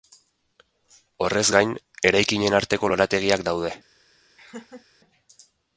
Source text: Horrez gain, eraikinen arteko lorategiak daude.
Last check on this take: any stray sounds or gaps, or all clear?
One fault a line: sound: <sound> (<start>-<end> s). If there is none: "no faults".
sound: laugh (4.4-4.9 s)